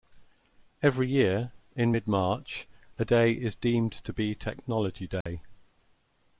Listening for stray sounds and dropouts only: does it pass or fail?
fail